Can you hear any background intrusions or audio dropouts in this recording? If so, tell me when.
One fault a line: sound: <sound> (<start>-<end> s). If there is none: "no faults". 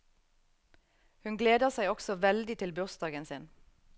no faults